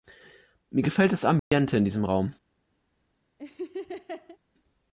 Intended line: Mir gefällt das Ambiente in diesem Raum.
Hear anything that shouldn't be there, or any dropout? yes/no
yes